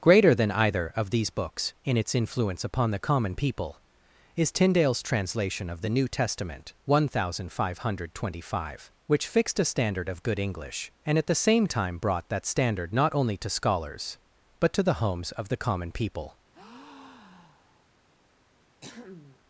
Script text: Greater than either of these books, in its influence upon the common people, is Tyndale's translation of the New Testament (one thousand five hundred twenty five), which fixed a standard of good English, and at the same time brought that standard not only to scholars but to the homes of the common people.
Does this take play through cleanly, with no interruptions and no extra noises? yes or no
no